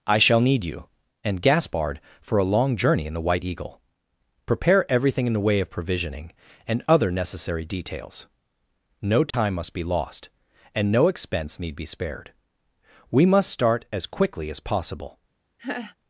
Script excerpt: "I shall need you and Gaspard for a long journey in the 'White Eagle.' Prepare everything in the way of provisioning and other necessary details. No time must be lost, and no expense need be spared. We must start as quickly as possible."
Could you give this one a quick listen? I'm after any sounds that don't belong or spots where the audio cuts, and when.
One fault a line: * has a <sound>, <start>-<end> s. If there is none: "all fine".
* has a dropout, 9.3-9.3 s
* has a laugh, 15.6-16.0 s